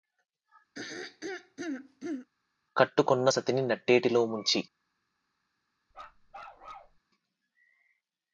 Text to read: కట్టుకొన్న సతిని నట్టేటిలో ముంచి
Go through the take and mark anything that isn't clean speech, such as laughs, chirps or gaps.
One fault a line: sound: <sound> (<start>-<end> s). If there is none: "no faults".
sound: throat clearing (0.7-2.3 s)
sound: bark (5.9-7.0 s)